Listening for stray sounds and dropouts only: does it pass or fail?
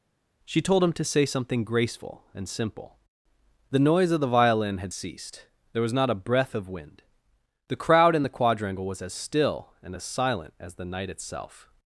pass